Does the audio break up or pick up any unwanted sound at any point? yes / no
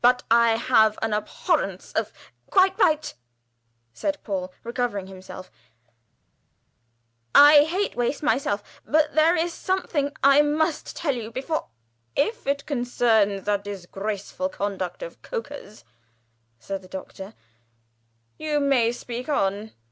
no